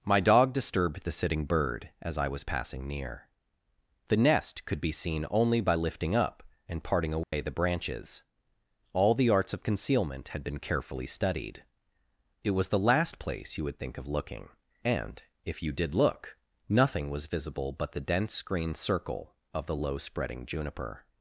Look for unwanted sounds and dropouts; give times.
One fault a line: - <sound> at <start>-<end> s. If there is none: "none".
- dropout at 7.2-7.3 s